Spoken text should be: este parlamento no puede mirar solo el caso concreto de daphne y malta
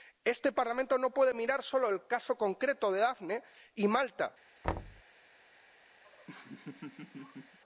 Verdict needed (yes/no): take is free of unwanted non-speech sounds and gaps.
no